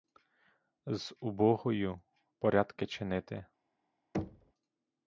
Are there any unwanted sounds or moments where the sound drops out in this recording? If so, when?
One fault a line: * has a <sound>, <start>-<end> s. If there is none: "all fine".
* has a thud, 4.1-4.5 s